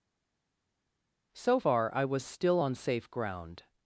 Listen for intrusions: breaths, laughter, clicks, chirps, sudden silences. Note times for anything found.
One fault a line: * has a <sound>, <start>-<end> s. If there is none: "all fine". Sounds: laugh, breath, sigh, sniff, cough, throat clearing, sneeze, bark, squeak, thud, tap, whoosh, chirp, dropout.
all fine